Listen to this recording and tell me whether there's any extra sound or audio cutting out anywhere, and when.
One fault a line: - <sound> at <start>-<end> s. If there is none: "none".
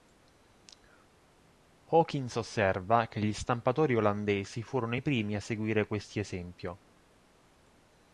none